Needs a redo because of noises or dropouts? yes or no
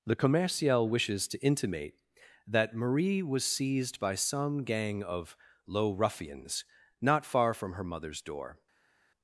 no